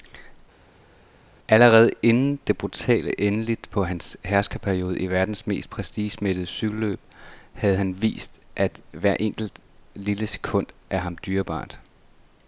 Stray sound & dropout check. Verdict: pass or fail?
pass